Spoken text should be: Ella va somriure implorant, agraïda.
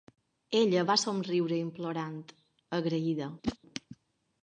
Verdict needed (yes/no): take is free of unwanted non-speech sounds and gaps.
no